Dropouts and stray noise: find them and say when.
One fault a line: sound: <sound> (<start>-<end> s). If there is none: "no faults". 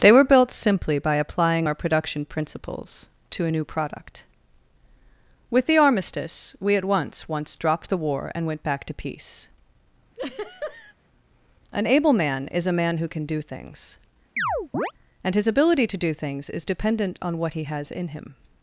sound: laugh (10.1-10.9 s)
sound: chirp (14.4-14.9 s)